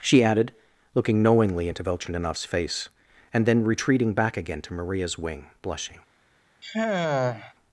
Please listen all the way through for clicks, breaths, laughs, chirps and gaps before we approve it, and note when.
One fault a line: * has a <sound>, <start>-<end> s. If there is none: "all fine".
* has a sigh, 6.6-7.5 s